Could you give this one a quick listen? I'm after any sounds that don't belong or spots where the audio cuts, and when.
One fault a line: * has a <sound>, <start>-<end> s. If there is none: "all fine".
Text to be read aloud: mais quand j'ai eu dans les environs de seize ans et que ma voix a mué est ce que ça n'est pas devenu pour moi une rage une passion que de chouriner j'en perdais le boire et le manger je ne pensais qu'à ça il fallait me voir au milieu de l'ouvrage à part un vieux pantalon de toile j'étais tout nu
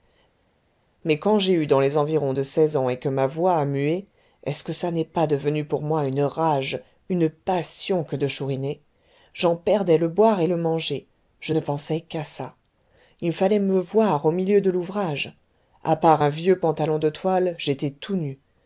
all fine